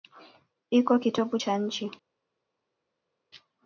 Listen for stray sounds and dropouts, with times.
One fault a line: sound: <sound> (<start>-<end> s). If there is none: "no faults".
no faults